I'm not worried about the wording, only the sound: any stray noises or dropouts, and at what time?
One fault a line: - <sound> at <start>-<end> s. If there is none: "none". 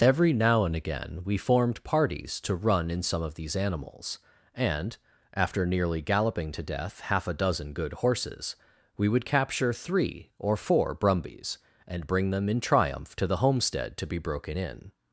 none